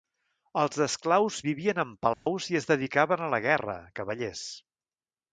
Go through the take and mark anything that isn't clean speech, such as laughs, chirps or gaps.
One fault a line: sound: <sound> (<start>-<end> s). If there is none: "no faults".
sound: dropout (2.1-2.3 s)